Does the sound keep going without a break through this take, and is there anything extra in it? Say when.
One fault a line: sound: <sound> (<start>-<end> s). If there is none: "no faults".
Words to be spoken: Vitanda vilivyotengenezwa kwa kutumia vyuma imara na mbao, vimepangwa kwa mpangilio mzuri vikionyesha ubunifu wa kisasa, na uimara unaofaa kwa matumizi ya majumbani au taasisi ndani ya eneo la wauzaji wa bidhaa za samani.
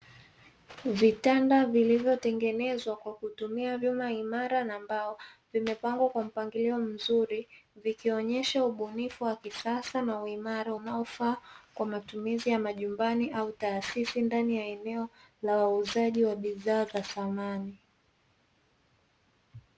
no faults